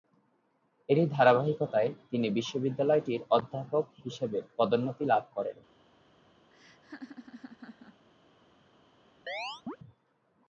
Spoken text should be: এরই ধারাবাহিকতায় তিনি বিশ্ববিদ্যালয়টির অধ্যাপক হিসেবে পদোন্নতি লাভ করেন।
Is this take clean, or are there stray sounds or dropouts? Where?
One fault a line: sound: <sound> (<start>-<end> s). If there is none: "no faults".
sound: laugh (6.5-8.1 s)
sound: chirp (9.3-9.8 s)